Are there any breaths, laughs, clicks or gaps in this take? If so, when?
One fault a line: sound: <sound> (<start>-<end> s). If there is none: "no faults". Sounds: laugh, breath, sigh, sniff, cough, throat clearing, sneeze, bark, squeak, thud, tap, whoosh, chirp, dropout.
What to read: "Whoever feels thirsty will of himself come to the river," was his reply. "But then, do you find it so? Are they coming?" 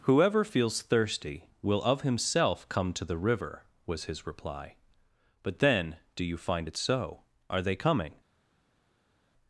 no faults